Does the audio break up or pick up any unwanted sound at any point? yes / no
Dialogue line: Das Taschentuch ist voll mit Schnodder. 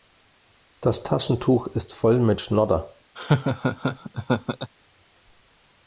yes